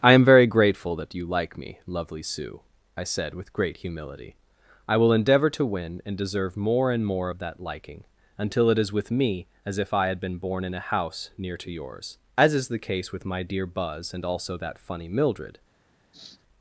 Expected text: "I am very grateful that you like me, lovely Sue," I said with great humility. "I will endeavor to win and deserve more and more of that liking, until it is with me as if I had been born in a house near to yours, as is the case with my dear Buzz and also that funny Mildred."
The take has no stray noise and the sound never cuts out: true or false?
false